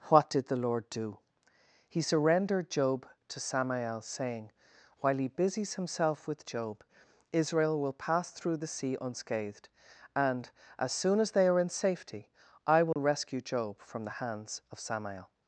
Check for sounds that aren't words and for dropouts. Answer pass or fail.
fail